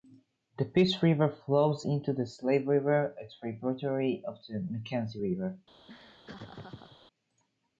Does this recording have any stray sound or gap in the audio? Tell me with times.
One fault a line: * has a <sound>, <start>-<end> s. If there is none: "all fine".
* has a laugh, 5.9-7.0 s